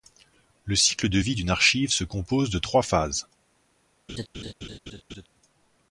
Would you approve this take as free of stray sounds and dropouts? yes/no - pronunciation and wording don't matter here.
no